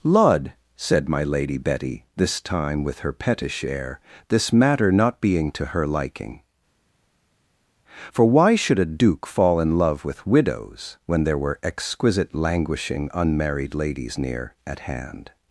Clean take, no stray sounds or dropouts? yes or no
yes